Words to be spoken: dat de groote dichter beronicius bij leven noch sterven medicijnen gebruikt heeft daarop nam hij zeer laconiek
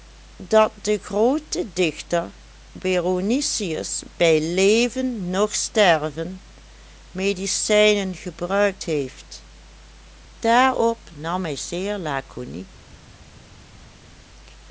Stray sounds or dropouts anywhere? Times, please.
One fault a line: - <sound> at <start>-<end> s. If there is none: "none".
none